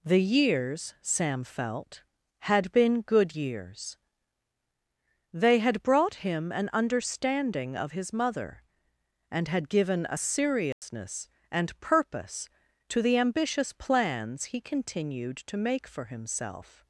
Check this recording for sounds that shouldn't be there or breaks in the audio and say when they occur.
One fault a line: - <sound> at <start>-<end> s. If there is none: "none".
- dropout at 10.7-10.8 s